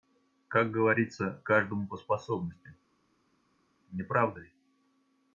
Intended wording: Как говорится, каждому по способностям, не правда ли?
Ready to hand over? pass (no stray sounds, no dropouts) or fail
pass